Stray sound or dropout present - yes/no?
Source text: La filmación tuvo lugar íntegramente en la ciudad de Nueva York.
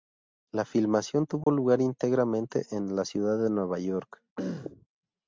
yes